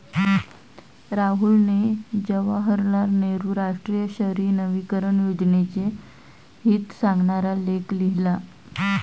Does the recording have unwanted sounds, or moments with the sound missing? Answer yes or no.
no